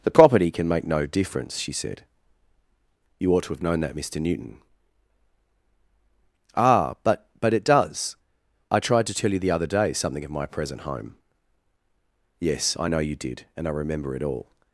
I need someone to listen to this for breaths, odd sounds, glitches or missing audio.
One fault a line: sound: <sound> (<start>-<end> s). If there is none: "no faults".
no faults